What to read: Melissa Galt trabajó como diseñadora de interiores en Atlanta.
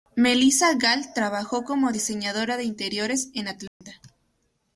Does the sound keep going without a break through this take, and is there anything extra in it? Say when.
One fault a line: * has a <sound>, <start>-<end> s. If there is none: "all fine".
* has a dropout, 3.7-3.8 s